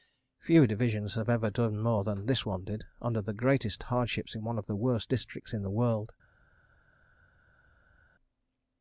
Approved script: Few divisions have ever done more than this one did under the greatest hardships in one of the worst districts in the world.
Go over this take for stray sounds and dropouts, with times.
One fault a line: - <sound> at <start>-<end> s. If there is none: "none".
none